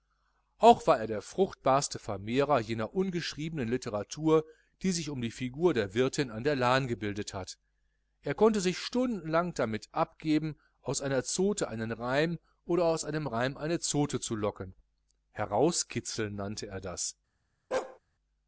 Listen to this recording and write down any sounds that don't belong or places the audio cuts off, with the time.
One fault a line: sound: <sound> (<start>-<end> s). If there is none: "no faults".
sound: bark (17.7-18.0 s)